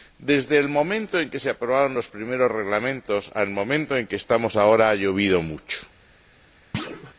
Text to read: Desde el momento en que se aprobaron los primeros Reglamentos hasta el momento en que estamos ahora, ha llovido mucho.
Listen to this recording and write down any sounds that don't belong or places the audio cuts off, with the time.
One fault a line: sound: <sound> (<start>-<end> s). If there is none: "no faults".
sound: thud (6.7-7.1 s)